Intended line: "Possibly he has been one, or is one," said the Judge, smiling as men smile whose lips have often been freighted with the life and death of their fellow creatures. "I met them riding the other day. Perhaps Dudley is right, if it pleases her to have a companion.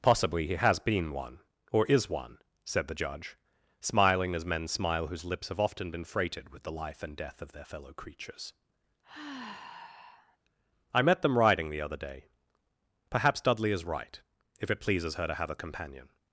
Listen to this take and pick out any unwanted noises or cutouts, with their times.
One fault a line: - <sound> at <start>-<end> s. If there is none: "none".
- sigh at 9.0-10.4 s